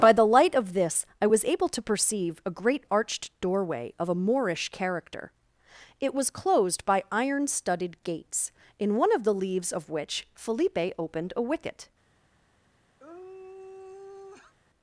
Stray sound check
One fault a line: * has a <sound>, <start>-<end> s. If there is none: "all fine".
* has a sigh, 13.0-14.5 s